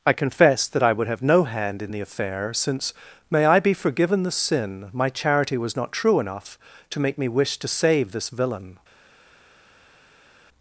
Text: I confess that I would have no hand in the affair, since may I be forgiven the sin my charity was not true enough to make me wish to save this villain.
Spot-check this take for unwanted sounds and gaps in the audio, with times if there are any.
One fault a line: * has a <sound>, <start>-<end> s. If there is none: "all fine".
all fine